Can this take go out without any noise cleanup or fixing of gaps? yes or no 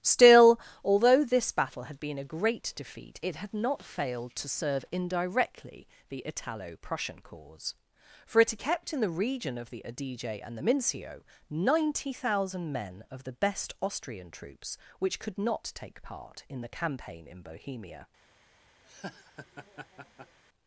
no